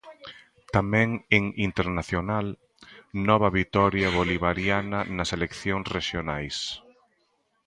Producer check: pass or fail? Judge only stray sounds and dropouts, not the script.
pass